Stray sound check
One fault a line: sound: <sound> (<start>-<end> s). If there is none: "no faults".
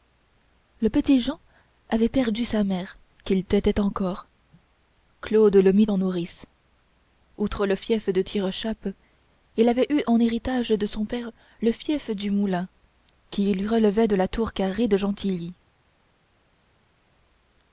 no faults